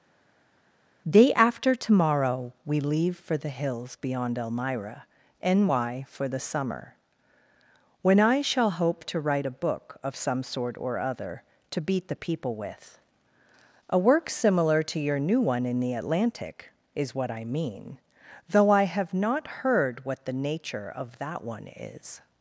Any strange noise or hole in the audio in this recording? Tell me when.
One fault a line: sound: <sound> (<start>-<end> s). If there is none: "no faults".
no faults